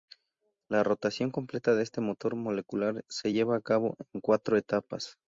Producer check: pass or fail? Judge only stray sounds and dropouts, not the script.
pass